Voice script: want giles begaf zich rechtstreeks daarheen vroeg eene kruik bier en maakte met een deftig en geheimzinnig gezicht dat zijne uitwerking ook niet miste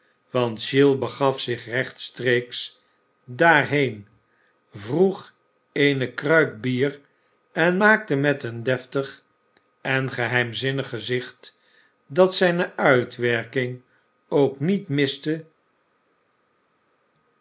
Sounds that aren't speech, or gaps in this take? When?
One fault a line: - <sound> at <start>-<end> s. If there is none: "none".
none